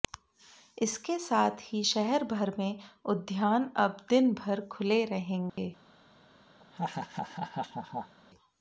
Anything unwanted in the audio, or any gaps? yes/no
yes